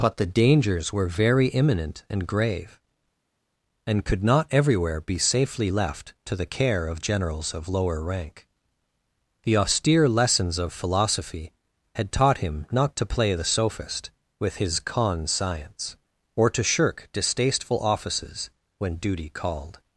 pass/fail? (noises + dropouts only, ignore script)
pass